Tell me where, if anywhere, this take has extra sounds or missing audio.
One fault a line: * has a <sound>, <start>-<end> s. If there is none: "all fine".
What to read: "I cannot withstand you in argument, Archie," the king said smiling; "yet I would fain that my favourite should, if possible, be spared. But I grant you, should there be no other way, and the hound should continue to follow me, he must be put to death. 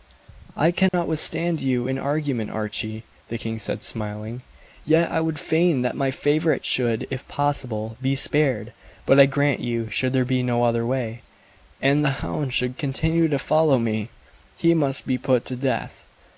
* has a dropout, 0.9-0.9 s